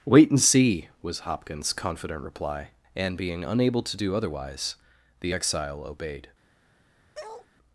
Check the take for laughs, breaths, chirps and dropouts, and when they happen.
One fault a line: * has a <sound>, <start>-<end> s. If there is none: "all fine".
* has a bark, 7.1-7.5 s